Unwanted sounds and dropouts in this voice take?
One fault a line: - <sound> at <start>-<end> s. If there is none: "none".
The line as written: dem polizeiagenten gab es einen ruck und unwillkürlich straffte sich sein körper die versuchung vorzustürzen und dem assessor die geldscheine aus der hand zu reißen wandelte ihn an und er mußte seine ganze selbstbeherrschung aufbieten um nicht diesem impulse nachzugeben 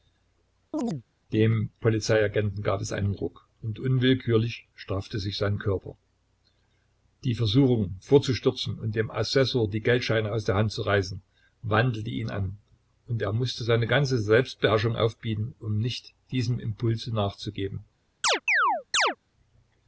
- chirp at 0.7-1.0 s
- chirp at 18.2-19.2 s